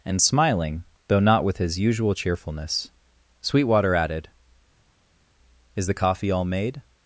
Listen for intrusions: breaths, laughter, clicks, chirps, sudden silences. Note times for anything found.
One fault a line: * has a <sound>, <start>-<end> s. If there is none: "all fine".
all fine